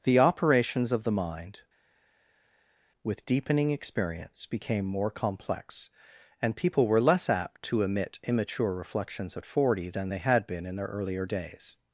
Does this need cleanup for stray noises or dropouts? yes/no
no